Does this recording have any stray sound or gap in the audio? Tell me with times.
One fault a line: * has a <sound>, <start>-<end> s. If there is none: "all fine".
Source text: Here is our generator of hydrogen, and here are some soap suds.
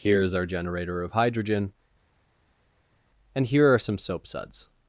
all fine